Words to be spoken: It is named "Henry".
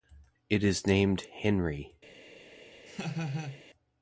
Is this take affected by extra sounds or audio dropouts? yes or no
yes